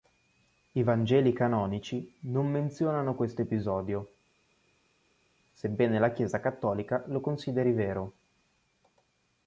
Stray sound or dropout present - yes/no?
no